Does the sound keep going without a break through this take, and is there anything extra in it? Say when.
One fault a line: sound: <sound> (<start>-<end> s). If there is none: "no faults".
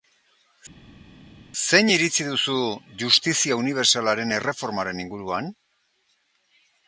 no faults